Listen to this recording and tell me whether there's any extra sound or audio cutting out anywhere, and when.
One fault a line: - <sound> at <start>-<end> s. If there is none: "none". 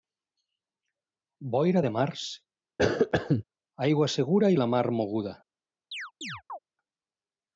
- cough at 2.8-3.4 s
- chirp at 5.9-6.6 s